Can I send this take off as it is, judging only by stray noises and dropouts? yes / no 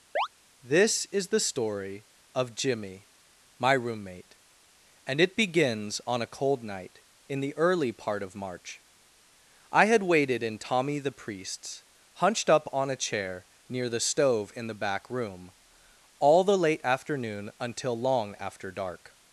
no